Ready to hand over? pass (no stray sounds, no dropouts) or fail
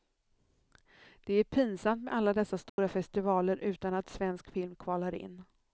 fail